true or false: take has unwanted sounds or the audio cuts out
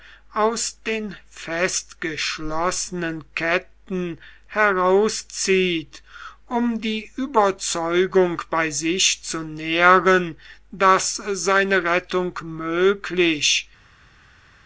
false